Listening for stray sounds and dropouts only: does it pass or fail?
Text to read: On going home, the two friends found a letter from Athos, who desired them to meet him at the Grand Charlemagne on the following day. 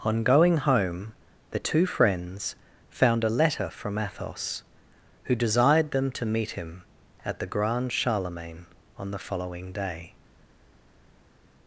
pass